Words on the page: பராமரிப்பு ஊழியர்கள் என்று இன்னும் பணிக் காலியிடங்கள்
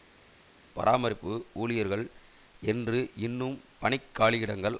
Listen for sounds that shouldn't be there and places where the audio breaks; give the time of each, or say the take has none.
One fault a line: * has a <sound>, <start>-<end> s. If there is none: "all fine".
all fine